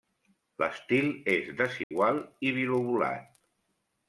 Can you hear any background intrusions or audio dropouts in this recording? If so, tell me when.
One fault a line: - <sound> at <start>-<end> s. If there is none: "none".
- dropout at 1.8-1.9 s